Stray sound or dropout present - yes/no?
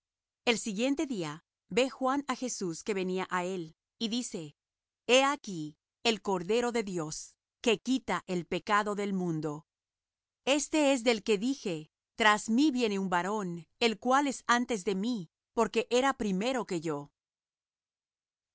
no